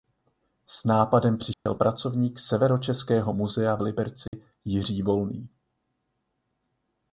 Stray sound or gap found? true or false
true